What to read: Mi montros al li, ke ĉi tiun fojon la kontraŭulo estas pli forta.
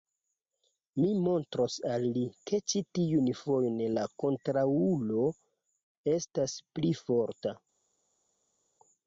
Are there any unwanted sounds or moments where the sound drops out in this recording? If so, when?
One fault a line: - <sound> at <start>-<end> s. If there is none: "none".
none